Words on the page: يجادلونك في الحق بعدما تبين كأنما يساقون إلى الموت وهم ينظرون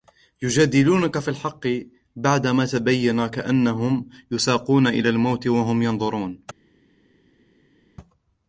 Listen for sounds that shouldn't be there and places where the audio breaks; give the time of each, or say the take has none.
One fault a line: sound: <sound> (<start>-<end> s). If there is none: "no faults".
no faults